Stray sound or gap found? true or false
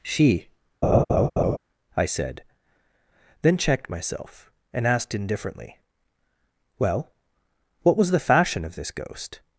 true